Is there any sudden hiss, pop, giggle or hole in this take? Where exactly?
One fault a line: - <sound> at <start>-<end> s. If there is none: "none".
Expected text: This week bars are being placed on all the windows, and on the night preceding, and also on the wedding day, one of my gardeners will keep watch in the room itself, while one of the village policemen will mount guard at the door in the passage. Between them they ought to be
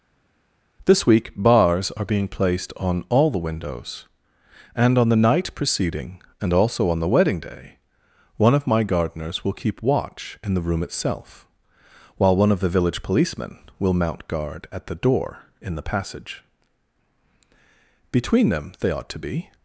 none